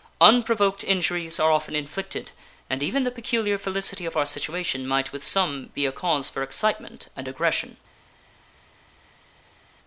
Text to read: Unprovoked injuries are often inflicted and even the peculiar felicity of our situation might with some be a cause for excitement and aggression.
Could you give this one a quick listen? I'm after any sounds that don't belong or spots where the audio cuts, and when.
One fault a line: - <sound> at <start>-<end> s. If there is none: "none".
none